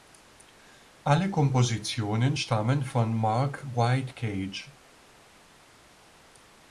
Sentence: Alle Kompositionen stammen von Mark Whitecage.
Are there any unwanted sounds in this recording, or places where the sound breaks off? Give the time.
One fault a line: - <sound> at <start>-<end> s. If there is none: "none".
none